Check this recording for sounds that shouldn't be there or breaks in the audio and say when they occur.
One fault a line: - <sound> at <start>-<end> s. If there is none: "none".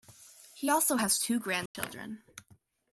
- dropout at 1.7-1.8 s